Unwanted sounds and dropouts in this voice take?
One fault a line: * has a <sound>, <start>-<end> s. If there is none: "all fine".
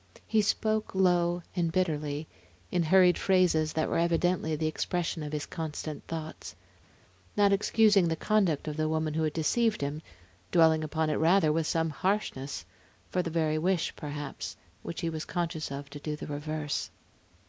all fine